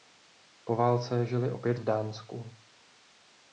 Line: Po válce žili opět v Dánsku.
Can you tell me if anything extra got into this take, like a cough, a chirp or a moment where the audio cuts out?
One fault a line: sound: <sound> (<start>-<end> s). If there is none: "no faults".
no faults